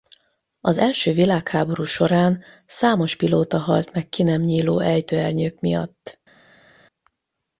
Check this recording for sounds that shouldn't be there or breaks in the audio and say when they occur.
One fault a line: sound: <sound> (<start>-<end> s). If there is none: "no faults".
no faults